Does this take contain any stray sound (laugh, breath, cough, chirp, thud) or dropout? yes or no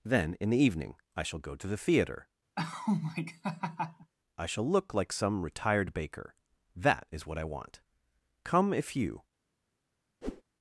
yes